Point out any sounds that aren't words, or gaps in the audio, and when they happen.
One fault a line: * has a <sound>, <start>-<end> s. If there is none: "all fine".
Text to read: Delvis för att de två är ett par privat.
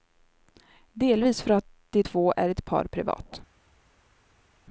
all fine